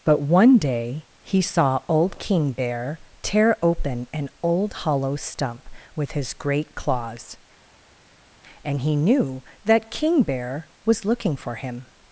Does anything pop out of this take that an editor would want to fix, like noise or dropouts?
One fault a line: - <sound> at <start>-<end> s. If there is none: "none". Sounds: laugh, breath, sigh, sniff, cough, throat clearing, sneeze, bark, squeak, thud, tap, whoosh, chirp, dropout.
none